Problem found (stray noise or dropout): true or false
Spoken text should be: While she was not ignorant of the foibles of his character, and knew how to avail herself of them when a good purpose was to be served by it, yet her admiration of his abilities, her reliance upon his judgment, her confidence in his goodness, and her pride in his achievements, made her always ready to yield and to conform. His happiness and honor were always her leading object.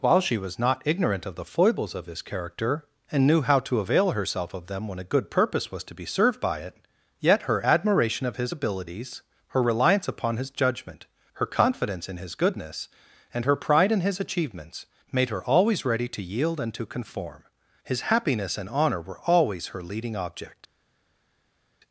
false